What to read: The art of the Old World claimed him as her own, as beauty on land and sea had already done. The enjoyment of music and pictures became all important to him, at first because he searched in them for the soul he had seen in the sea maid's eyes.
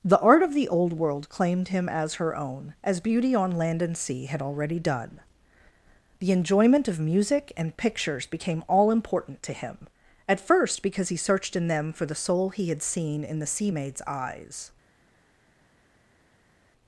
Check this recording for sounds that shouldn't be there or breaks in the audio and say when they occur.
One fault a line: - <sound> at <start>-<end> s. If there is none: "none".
none